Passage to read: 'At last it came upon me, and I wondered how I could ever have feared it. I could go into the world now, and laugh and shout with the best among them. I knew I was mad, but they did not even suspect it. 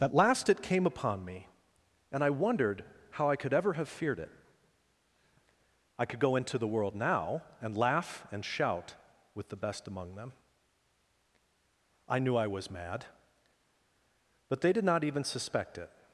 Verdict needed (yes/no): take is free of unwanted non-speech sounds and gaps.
yes